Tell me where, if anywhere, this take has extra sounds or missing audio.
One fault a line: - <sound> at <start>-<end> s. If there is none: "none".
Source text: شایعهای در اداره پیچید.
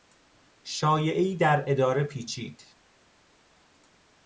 none